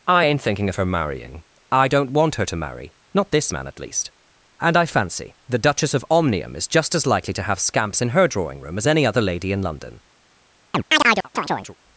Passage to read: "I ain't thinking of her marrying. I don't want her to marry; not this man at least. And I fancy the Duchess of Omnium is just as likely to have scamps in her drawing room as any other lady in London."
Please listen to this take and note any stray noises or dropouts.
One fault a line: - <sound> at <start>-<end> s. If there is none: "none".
- chirp at 10.7-11.8 s